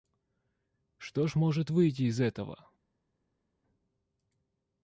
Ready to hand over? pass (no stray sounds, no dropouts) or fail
pass